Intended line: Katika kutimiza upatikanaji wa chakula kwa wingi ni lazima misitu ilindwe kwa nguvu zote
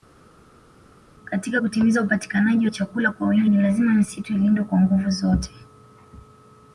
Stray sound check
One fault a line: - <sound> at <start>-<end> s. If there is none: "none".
none